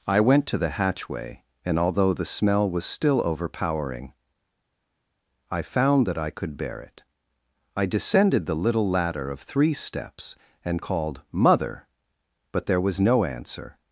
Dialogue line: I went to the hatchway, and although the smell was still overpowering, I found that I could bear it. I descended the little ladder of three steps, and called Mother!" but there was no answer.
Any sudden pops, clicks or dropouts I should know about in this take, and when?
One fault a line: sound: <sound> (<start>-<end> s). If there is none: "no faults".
no faults